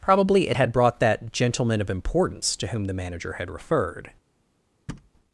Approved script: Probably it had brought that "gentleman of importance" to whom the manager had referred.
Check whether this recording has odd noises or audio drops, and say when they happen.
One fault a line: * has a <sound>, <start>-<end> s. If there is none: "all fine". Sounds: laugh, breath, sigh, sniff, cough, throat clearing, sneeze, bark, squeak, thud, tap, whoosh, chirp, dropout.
* has a thud, 4.9-5.1 s